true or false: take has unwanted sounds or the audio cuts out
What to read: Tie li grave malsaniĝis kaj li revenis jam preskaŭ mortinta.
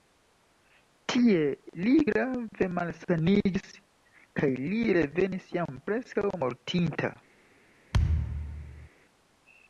true